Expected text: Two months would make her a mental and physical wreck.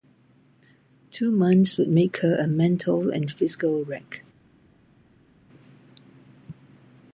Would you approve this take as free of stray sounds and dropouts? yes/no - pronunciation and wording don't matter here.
yes